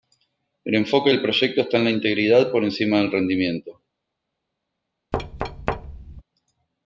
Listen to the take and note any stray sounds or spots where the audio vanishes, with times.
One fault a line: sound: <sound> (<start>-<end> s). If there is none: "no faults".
sound: thud (5.1-6.2 s)